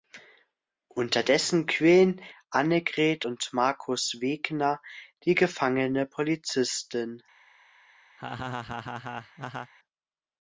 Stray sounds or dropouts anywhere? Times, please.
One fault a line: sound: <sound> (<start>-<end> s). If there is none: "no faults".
sound: laugh (8.2-9.7 s)